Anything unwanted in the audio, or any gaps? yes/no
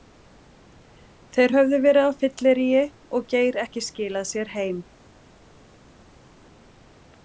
no